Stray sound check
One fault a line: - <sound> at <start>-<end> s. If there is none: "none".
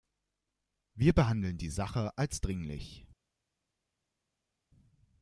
none